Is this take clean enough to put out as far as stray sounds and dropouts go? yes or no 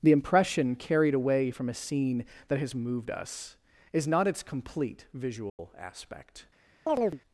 no